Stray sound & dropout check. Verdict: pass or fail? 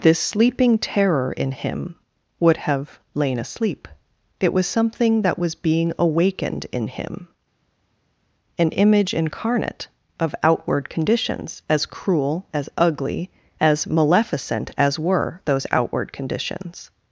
pass